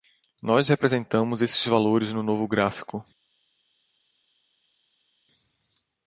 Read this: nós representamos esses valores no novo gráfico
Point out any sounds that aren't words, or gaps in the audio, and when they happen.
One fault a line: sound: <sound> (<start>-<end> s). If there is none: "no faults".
no faults